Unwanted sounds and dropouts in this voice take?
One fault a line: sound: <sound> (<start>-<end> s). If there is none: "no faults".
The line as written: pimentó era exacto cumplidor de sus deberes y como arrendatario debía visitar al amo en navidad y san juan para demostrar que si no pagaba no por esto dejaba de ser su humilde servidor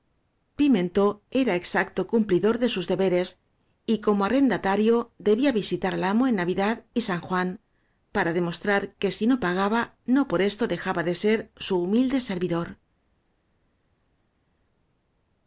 no faults